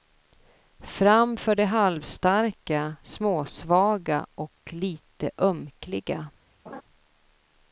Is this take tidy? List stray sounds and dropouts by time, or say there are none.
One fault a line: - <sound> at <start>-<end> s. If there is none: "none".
- laugh at 6.7-6.8 s